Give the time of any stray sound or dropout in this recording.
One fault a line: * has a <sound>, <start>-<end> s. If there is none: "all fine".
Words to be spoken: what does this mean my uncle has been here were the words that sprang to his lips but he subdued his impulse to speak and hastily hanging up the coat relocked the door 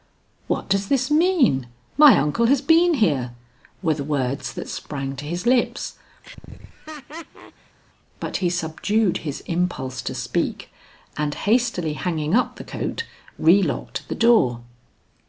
* has a laugh, 6.2-7.8 s